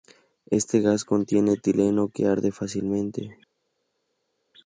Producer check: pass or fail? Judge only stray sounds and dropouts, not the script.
pass